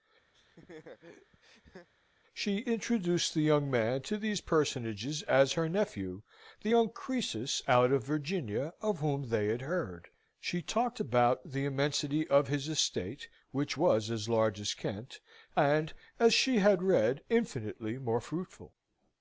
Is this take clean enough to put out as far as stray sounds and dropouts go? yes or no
no